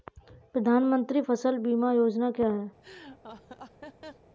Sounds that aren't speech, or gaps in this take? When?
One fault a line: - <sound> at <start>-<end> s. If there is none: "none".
- laugh at 2.8-4.3 s